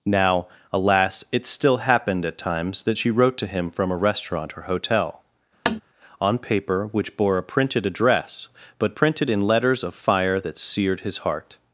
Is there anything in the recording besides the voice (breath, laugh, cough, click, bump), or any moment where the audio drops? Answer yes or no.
yes